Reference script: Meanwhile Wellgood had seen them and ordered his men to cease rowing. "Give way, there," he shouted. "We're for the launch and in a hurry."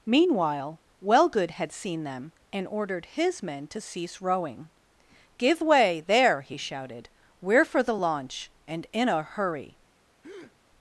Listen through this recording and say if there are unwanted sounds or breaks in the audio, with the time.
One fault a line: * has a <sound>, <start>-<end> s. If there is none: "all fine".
* has a breath, 10.2-10.6 s